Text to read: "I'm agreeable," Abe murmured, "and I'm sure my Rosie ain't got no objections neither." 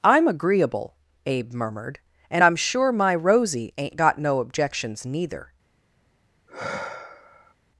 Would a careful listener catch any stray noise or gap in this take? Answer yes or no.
yes